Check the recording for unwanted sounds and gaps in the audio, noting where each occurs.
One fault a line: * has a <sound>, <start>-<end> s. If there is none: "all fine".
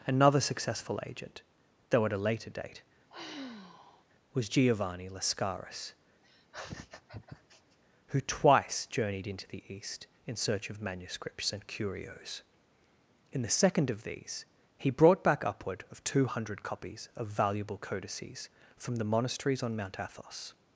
* has a sigh, 3.1-4.0 s
* has a laugh, 6.2-7.8 s